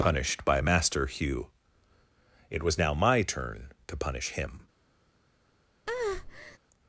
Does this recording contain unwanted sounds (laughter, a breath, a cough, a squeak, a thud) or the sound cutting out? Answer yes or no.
yes